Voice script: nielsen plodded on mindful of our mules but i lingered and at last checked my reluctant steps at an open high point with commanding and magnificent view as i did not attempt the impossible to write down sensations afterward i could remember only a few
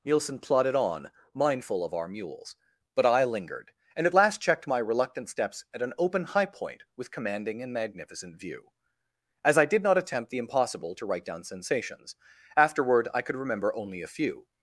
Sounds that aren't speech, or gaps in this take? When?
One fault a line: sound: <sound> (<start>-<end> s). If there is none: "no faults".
no faults